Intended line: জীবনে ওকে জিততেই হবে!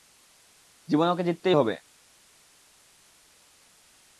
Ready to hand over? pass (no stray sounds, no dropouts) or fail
pass